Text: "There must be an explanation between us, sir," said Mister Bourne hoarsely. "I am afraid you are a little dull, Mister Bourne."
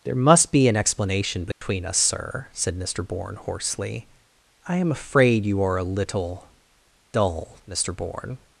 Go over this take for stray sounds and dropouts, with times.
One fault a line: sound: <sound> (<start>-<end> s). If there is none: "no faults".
sound: dropout (1.5-1.6 s)